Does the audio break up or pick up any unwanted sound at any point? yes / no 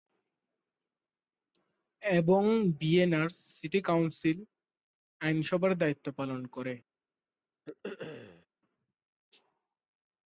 yes